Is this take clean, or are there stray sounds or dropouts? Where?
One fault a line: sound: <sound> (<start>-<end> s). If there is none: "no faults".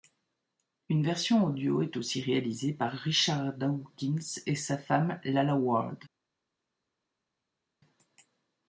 no faults